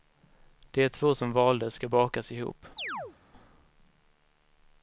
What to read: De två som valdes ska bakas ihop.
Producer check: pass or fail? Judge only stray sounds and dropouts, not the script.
fail